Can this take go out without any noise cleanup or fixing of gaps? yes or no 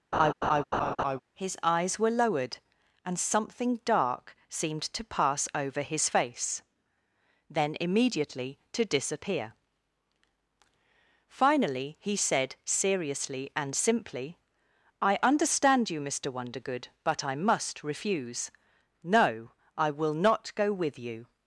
no